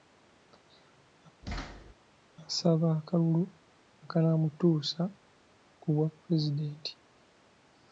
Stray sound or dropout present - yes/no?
yes